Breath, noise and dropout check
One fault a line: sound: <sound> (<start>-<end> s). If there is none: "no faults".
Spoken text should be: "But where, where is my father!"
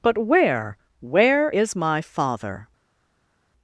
no faults